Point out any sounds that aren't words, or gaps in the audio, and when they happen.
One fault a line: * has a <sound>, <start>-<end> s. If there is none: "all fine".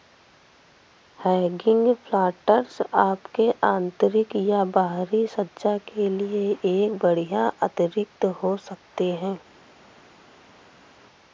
all fine